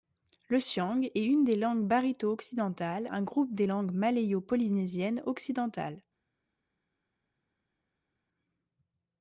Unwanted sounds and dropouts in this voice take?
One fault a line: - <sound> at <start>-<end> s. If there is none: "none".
none